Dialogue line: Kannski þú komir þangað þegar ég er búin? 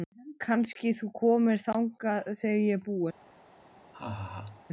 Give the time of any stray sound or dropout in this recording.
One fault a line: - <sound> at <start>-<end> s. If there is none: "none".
- laugh at 3.9-4.6 s